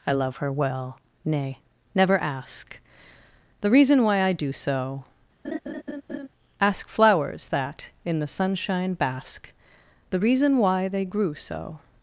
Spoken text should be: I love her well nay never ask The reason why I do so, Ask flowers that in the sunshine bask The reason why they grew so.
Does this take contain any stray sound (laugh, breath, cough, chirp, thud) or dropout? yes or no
yes